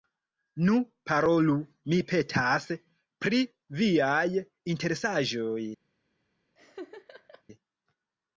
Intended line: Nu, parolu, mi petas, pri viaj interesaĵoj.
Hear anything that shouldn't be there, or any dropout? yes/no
yes